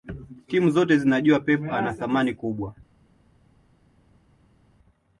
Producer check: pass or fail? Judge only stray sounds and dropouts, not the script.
pass